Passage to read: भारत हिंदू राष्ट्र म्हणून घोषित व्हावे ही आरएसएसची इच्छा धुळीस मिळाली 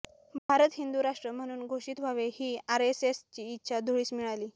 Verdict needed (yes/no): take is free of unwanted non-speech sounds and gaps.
no